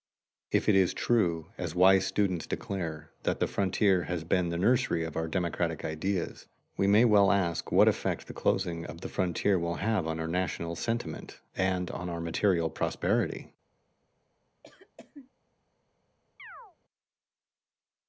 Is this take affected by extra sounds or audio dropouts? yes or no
yes